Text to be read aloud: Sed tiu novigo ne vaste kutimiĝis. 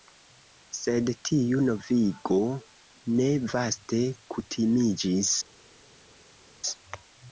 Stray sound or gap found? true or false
false